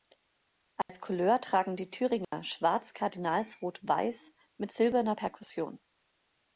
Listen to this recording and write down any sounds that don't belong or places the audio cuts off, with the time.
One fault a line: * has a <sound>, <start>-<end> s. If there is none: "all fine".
* has a dropout, 0.8-0.9 s
* has a dropout, 2.2-2.3 s